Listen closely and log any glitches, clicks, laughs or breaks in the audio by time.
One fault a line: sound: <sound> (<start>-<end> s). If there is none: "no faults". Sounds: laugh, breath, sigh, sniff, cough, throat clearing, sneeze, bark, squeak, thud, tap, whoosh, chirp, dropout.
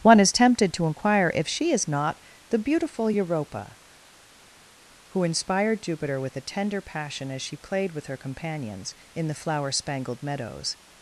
no faults